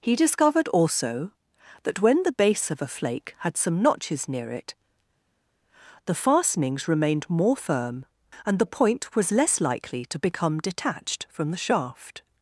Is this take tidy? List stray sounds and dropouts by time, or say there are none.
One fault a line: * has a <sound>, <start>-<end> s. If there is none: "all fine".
all fine